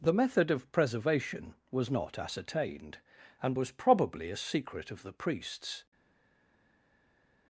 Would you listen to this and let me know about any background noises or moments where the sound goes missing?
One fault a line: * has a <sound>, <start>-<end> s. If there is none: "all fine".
all fine